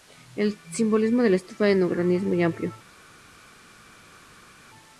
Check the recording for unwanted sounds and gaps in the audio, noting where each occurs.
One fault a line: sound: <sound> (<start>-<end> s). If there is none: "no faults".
no faults